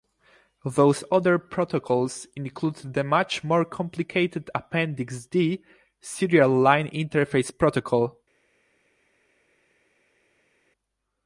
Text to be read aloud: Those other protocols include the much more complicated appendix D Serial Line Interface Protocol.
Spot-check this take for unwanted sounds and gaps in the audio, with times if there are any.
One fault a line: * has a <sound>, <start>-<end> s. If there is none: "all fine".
all fine